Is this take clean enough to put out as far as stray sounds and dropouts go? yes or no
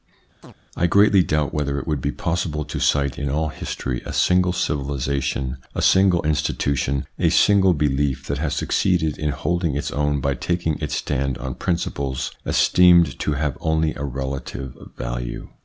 no